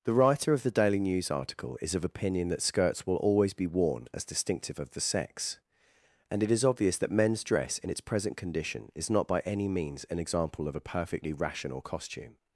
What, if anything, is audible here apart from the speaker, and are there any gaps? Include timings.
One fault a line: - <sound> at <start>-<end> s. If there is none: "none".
none